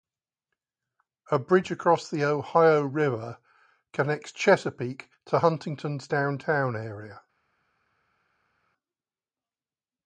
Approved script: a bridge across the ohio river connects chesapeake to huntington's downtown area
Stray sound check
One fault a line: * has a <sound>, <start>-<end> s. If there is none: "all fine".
all fine